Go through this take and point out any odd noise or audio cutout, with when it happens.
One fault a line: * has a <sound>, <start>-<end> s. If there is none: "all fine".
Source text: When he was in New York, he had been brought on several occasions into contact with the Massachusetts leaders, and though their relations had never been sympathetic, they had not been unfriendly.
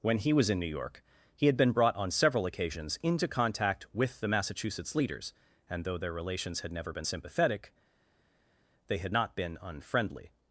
all fine